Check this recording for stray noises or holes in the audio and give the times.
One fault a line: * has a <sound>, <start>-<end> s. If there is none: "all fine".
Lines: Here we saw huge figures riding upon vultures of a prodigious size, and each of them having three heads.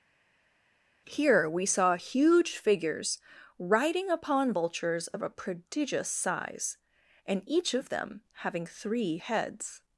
all fine